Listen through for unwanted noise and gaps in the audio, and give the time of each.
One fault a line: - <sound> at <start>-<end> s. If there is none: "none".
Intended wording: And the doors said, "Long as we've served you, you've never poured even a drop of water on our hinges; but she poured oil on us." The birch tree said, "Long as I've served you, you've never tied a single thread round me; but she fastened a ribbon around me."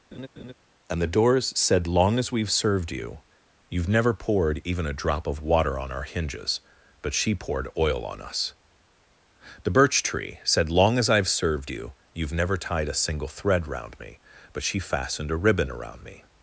- laugh at 0.1-0.5 s